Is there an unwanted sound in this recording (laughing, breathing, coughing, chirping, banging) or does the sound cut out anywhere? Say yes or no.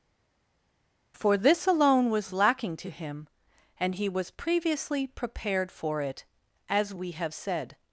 no